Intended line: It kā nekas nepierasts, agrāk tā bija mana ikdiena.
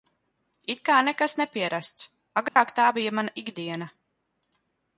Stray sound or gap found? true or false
true